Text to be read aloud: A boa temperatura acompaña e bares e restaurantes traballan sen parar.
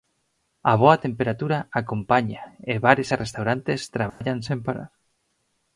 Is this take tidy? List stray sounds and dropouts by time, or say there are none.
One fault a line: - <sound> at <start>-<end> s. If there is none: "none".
- dropout at 4.1-4.2 s